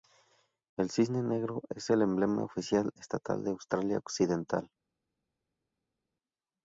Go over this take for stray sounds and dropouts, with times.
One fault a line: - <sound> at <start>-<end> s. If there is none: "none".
none